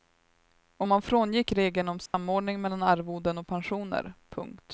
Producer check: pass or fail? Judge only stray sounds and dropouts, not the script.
fail